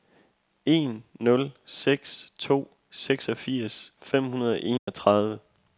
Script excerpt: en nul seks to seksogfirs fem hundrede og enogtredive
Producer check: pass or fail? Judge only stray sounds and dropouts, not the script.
fail